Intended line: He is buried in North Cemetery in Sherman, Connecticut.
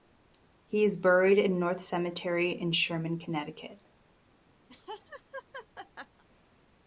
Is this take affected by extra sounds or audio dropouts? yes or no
yes